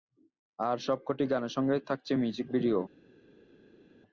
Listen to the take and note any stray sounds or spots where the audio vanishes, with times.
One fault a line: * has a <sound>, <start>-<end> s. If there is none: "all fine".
all fine